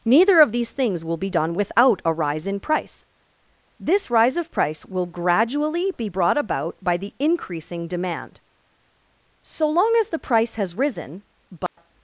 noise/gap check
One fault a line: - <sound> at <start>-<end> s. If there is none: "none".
- dropout at 11.7-11.8 s